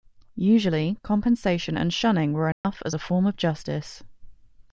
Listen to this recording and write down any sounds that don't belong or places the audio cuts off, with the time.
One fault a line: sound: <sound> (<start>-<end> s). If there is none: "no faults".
sound: dropout (2.5-2.6 s)